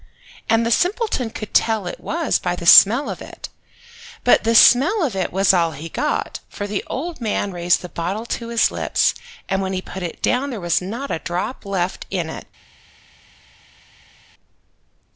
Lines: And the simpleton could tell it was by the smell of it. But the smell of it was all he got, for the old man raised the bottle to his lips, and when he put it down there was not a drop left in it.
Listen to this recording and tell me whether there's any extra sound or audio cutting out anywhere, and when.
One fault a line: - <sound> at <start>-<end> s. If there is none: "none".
none